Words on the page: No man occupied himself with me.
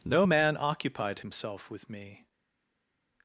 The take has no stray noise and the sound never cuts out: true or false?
true